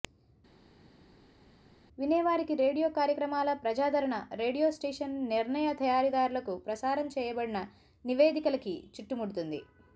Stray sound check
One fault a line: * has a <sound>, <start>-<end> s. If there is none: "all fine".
all fine